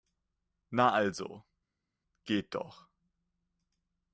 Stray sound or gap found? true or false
false